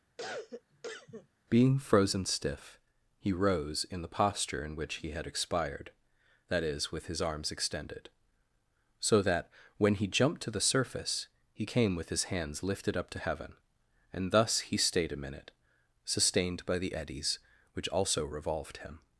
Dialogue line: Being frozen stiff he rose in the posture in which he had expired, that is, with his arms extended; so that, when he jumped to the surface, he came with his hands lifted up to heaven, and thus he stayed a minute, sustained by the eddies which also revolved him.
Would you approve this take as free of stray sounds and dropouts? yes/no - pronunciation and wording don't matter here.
no